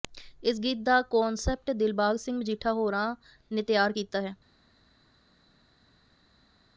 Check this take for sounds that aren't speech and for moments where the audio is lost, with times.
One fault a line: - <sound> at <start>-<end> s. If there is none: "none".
none